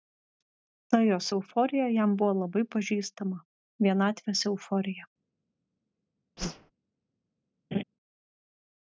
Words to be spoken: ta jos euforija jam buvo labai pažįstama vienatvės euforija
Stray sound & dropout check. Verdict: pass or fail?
fail